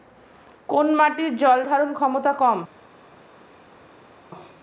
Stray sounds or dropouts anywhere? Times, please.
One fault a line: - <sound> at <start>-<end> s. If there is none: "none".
none